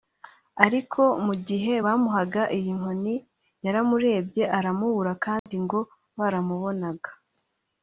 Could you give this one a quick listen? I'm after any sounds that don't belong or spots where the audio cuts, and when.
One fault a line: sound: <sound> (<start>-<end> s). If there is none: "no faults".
sound: dropout (5.4-5.5 s)